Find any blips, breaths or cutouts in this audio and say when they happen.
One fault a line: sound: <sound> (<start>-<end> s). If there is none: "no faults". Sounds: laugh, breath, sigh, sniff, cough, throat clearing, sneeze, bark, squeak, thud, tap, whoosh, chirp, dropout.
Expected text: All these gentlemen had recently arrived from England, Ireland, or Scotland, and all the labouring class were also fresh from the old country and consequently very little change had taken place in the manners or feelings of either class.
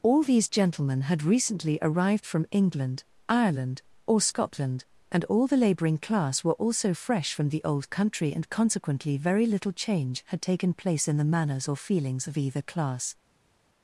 no faults